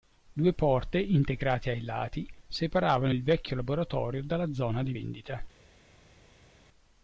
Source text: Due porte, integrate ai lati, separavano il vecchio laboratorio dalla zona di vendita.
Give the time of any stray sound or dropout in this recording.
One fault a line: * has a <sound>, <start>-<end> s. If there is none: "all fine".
all fine